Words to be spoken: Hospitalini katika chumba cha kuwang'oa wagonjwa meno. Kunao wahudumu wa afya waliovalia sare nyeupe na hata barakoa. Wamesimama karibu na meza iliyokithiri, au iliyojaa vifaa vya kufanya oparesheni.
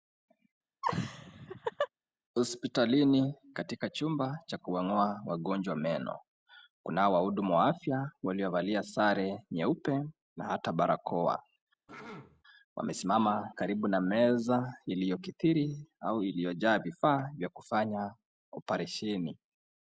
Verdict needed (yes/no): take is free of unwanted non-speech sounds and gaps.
no